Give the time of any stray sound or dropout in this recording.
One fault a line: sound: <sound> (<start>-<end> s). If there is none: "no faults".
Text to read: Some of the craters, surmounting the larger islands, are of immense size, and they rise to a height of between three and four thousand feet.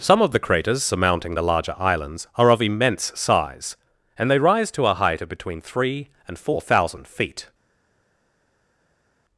no faults